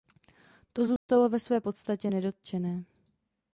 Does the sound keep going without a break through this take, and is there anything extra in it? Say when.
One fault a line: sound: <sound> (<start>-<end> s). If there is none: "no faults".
sound: dropout (1.0-1.1 s)